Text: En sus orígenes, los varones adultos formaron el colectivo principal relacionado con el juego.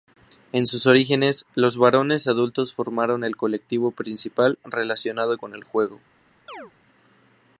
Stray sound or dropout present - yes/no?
yes